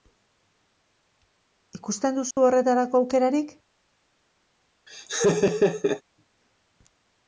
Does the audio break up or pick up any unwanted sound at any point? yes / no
yes